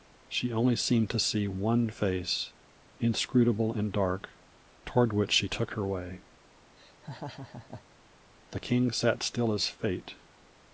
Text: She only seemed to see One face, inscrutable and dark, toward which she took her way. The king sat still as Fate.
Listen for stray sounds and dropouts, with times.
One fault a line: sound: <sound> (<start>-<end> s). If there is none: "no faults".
sound: laugh (6.8-7.8 s)